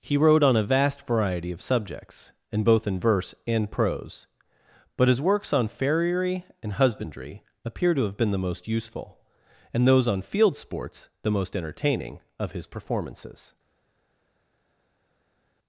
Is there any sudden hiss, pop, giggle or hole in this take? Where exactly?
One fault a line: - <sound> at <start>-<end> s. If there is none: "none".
none